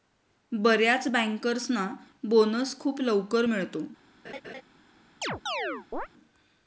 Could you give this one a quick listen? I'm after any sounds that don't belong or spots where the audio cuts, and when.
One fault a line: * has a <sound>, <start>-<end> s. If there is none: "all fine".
* has a laugh, 4.2-4.6 s
* has a chirp, 5.2-6.1 s